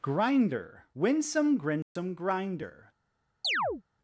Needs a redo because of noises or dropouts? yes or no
yes